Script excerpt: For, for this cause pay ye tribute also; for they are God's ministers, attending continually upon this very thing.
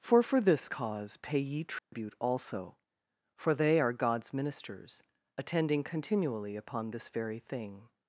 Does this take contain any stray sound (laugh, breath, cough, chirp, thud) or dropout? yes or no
yes